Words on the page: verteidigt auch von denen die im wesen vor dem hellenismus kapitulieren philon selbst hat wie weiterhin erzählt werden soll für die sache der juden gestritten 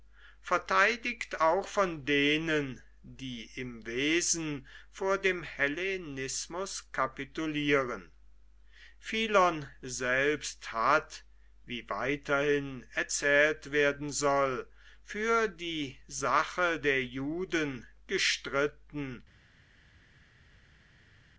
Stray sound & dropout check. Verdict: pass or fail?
pass